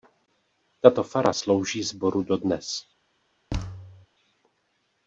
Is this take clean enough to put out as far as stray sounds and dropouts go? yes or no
no